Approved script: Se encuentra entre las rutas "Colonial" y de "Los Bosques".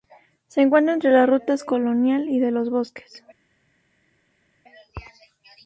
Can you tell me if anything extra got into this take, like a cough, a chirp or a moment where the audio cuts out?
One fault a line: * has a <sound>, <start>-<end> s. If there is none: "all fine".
all fine